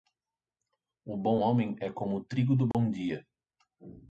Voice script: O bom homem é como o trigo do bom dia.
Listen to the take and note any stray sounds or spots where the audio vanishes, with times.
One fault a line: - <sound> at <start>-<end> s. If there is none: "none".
- dropout at 2.7-2.7 s